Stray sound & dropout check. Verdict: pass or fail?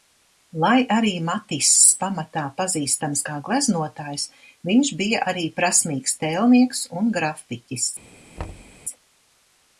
fail